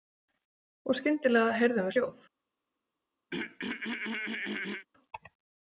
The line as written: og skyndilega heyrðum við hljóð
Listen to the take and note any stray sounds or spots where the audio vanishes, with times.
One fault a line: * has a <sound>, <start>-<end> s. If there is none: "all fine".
* has a throat clearing, 3.3-4.9 s